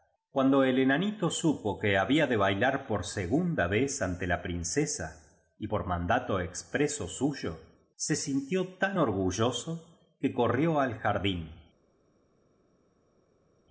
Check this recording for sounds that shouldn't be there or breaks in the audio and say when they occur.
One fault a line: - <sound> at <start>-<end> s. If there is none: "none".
none